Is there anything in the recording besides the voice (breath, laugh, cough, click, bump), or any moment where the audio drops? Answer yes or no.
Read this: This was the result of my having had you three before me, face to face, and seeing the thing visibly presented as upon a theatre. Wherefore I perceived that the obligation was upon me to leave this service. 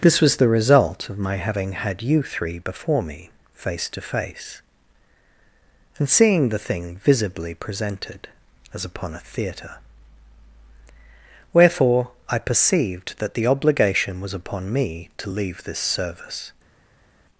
no